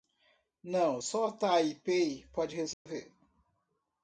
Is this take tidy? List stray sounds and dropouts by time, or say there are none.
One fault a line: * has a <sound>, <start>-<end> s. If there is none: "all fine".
* has a dropout, 2.7-2.9 s